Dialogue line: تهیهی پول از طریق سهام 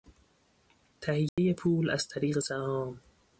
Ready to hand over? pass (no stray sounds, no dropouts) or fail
fail